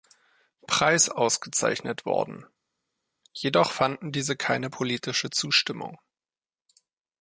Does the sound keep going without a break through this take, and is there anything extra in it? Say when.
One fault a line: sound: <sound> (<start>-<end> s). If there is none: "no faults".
no faults